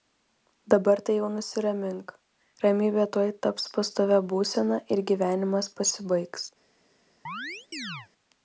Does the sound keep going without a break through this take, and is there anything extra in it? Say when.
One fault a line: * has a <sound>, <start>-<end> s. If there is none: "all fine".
* has a chirp, 7.3-8.1 s